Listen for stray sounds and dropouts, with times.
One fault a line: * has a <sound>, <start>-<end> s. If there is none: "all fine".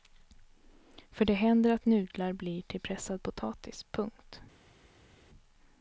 all fine